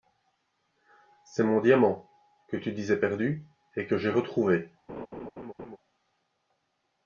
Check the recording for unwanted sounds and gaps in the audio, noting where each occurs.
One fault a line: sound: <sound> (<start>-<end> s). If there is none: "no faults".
sound: laugh (4.9-5.8 s)